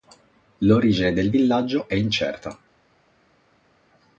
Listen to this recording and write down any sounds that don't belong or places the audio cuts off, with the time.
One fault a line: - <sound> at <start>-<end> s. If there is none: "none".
none